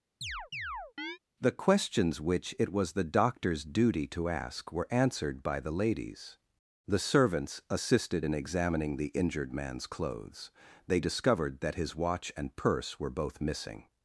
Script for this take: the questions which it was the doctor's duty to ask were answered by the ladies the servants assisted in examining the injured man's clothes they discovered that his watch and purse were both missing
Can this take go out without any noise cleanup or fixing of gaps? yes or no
no